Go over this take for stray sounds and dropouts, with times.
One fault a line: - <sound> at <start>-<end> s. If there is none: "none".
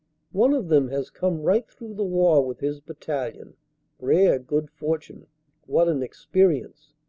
none